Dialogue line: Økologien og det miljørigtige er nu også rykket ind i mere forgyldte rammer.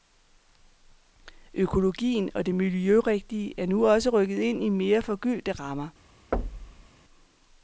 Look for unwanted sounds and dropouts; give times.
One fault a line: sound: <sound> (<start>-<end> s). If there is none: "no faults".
sound: thud (6.3-6.9 s)